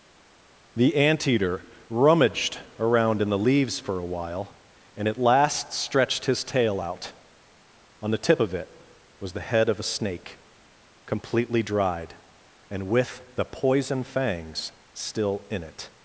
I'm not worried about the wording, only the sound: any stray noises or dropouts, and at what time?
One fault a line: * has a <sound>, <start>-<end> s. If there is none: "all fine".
all fine